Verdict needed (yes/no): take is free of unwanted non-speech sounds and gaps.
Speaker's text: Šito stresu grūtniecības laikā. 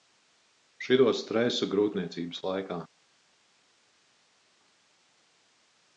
yes